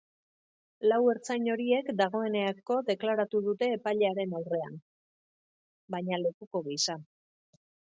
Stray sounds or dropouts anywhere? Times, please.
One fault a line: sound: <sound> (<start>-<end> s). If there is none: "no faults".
no faults